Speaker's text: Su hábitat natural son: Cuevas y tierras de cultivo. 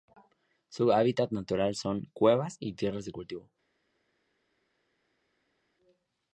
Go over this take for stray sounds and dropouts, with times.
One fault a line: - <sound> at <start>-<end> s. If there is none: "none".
none